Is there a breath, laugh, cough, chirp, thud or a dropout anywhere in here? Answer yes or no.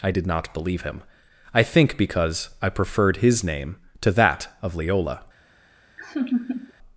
yes